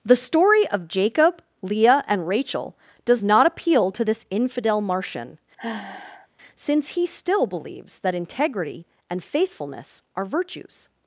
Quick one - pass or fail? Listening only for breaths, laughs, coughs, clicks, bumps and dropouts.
fail